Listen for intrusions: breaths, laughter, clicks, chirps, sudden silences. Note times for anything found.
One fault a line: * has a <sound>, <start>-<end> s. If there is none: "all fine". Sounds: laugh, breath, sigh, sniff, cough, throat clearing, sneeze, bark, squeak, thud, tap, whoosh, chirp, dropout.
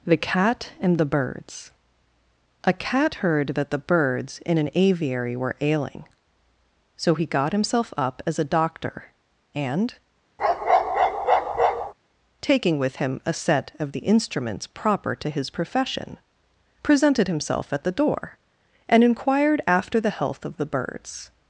* has a bark, 10.4-11.9 s